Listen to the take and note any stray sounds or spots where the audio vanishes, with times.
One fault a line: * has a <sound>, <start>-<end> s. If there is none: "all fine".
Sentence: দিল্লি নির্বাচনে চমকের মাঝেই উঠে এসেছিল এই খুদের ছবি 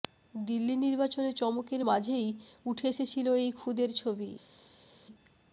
all fine